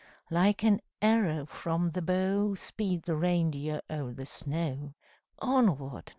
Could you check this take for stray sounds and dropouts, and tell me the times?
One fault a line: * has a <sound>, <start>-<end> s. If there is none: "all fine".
all fine